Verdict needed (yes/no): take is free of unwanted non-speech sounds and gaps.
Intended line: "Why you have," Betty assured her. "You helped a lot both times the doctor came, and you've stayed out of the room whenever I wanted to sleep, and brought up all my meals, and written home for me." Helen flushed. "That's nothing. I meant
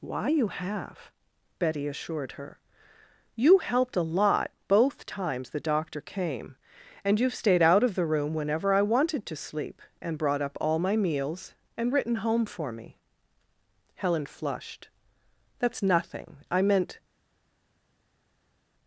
yes